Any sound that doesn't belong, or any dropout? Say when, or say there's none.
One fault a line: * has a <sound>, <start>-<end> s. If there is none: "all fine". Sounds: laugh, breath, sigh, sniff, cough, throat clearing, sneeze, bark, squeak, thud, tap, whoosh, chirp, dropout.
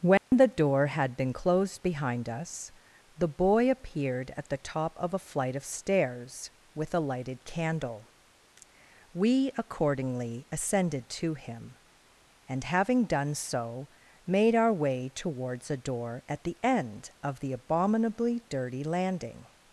* has a dropout, 0.2-0.3 s